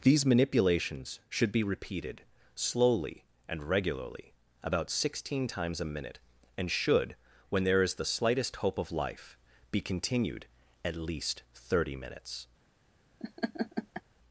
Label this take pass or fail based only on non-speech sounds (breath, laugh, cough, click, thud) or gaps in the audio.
fail